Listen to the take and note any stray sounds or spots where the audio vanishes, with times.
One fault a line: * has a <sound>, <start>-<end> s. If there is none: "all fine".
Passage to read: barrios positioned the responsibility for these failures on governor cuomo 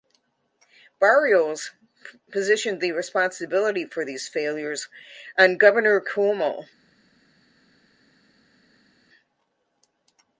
all fine